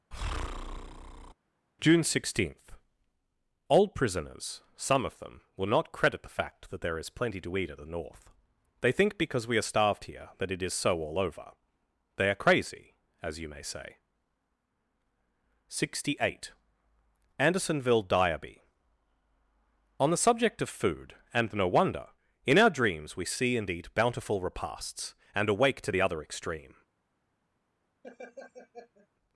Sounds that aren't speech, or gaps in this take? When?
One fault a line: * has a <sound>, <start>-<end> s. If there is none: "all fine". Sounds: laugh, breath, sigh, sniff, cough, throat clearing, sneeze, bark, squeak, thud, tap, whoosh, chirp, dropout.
* has a breath, 0.1-1.3 s
* has a laugh, 28.0-29.1 s